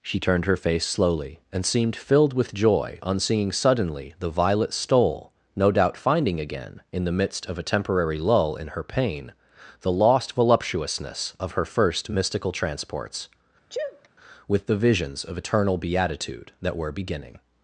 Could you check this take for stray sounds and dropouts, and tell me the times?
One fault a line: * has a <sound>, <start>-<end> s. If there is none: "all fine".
* has a sneeze, 13.7-14.1 s